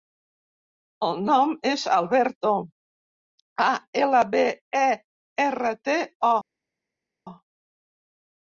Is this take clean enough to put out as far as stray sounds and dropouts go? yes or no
yes